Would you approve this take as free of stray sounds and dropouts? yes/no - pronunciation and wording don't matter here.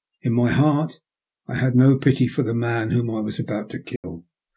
no